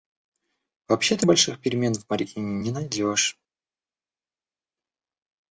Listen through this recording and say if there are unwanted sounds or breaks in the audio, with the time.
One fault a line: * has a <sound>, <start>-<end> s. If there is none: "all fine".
all fine